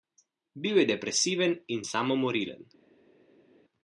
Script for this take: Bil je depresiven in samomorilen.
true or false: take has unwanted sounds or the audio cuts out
false